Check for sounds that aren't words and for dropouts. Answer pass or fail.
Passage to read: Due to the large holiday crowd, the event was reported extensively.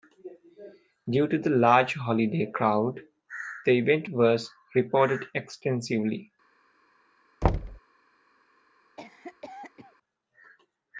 fail